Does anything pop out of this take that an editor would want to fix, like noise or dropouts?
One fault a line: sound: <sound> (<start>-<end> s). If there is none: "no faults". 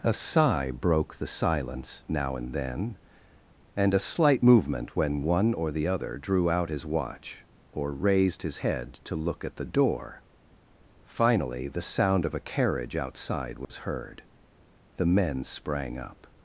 sound: dropout (13.6-13.7 s)